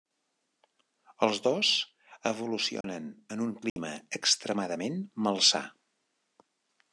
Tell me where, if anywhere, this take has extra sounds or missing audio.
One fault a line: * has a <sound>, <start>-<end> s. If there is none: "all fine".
* has a dropout, 2.8-2.8 s
* has a dropout, 3.7-3.8 s